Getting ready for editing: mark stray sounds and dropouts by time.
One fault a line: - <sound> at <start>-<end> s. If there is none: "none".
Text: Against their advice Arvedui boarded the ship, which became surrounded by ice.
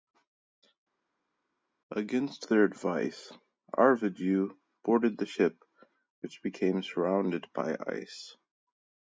none